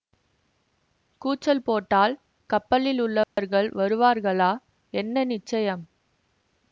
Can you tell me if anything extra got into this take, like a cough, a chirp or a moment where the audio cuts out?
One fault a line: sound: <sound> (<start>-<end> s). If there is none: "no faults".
sound: dropout (3.2-3.4 s)